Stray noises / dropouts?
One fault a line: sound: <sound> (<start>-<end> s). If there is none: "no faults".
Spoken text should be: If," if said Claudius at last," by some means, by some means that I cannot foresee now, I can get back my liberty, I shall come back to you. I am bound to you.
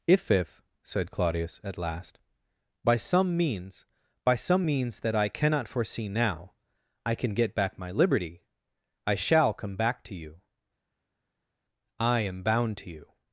no faults